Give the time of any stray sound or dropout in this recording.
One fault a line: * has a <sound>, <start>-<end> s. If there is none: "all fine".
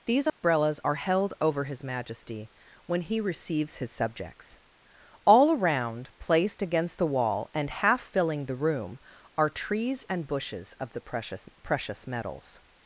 * has a dropout, 0.3-0.4 s